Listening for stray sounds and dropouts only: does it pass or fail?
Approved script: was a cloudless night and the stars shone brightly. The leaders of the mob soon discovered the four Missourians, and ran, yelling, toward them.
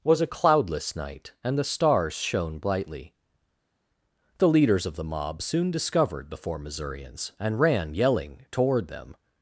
pass